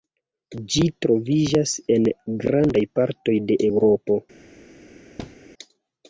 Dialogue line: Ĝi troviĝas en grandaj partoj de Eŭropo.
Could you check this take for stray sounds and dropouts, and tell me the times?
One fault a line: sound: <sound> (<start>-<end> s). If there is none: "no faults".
sound: thud (5.2-5.4 s)